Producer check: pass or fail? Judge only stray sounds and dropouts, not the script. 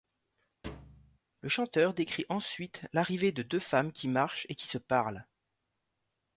fail